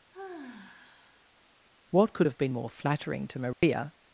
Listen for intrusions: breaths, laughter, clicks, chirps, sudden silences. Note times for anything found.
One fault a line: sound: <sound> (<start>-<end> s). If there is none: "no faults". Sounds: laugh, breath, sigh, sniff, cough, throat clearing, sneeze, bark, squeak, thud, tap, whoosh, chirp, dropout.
sound: sigh (0.1-1.4 s)
sound: dropout (3.5-3.6 s)